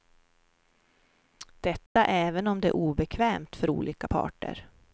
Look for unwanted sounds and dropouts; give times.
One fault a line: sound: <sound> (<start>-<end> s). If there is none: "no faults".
sound: dropout (1.9-2.0 s)